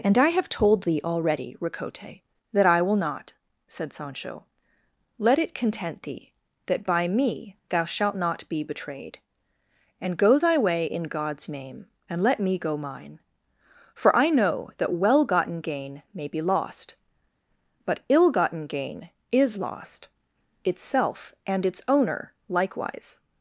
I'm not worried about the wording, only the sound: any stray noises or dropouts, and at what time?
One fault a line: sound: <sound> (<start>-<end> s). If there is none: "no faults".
no faults